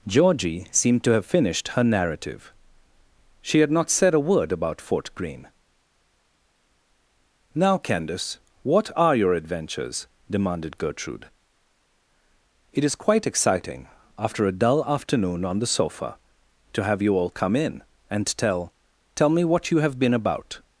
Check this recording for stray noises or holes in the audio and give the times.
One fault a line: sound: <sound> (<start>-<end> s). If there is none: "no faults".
no faults